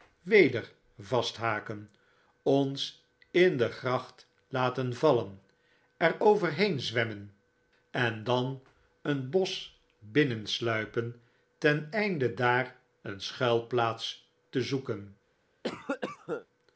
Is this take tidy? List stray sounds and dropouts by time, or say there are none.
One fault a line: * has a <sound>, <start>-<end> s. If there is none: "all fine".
* has a cough, 15.6-16.5 s